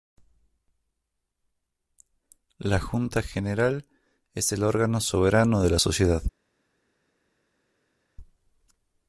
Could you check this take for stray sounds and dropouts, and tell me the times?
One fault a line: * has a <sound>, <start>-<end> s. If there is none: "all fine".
all fine